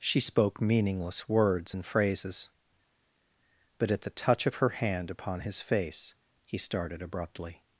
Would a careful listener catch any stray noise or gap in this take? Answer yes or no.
no